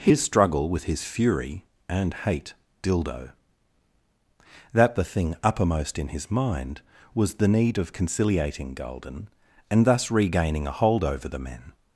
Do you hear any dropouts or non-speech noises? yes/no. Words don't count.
no